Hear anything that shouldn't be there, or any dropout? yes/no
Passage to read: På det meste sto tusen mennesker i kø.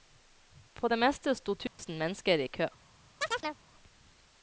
yes